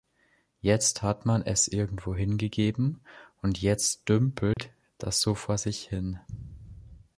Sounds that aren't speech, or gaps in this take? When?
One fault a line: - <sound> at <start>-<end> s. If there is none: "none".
- dropout at 4.5-4.6 s